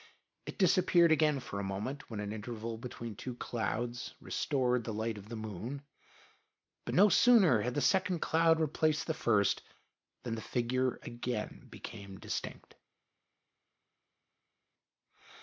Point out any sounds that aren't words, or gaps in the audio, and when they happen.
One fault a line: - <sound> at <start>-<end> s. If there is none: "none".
none